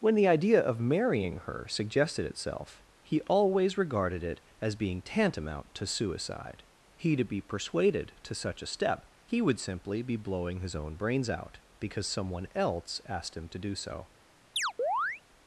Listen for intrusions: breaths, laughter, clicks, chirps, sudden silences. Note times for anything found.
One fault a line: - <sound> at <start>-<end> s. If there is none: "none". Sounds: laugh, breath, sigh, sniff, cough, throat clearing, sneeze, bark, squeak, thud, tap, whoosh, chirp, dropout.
- chirp at 14.6-15.2 s